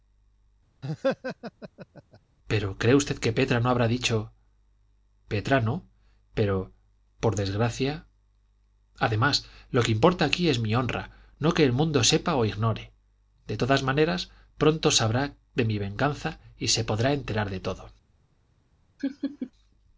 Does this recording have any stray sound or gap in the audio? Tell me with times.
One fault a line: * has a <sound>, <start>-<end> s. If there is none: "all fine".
* has a laugh, 0.8-2.2 s
* has a laugh, 19.0-19.5 s